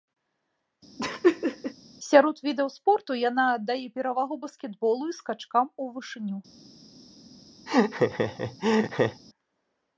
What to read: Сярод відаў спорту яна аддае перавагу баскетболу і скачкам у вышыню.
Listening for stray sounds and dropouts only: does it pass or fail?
fail